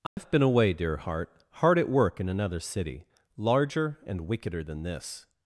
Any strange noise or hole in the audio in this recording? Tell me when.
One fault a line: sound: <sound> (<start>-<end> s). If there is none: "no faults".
sound: dropout (0.1-0.2 s)